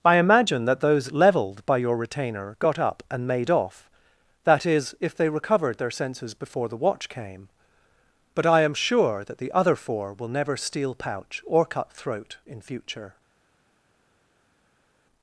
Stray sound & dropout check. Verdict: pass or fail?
pass